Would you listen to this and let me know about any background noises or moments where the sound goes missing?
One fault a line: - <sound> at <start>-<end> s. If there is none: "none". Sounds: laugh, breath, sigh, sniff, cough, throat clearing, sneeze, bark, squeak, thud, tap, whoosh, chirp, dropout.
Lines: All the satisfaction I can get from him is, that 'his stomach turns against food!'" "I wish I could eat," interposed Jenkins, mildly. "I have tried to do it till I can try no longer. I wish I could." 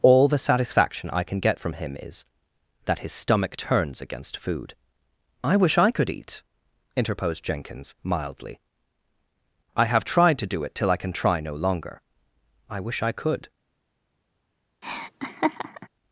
- laugh at 14.8-15.9 s